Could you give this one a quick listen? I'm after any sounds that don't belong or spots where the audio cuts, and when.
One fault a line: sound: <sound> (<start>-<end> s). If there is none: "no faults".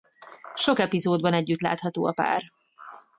no faults